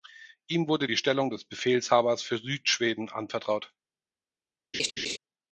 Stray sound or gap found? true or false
true